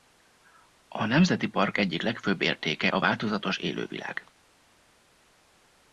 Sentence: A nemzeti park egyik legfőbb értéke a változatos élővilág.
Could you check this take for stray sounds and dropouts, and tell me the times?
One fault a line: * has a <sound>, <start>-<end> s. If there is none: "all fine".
all fine